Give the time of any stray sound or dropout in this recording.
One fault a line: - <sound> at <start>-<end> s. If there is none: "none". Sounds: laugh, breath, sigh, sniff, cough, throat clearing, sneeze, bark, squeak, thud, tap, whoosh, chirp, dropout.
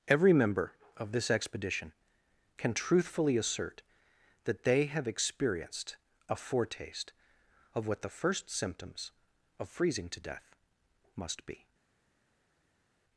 none